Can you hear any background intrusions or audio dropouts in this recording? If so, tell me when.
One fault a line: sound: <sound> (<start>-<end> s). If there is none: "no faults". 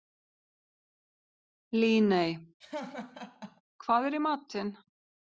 sound: laugh (2.6-3.6 s)